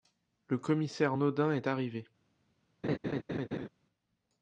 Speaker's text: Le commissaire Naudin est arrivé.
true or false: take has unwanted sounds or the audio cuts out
true